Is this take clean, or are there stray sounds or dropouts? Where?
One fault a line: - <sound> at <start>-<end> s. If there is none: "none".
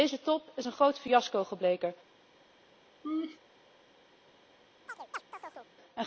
- laugh at 3.0-3.4 s
- chirp at 4.9-5.7 s